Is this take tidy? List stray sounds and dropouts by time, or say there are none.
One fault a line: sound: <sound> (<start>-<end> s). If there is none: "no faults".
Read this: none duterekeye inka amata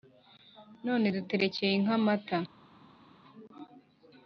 no faults